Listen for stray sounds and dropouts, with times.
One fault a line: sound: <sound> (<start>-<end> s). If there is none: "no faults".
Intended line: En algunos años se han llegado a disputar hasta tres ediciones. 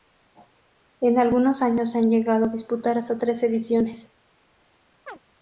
sound: chirp (5.1-5.2 s)